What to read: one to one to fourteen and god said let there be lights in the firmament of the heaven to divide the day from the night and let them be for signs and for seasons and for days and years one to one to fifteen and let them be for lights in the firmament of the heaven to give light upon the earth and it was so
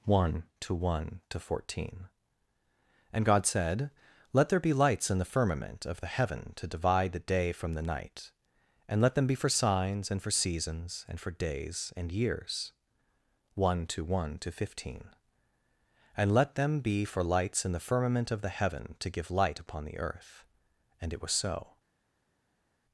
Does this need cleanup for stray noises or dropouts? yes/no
no